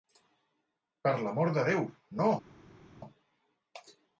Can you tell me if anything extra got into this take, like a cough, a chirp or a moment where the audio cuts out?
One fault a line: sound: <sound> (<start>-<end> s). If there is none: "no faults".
no faults